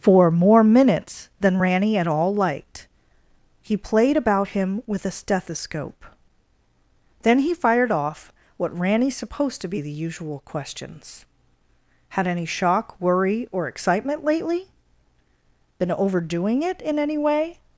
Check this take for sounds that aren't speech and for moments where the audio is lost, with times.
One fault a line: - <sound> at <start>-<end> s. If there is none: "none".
none